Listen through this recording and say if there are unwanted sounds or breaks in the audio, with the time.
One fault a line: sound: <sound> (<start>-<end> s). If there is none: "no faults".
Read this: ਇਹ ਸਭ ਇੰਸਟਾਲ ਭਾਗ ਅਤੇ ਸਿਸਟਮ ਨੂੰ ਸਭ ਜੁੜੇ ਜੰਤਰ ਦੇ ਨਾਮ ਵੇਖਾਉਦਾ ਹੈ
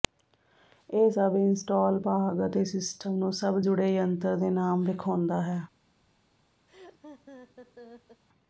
sound: laugh (6.7-8.2 s)